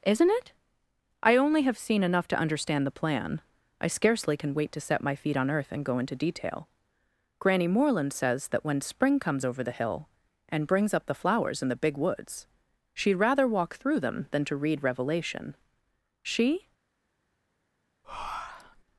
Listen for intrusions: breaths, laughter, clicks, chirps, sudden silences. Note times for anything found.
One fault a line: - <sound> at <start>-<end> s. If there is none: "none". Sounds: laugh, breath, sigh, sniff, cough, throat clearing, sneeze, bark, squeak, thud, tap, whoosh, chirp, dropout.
- breath at 18.0-18.8 s